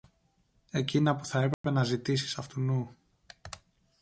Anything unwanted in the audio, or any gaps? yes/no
yes